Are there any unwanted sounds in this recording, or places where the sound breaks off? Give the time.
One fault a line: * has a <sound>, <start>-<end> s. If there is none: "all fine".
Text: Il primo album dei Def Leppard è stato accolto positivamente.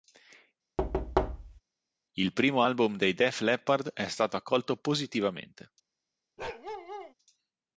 * has a thud, 0.8-1.6 s
* has a bark, 6.4-7.1 s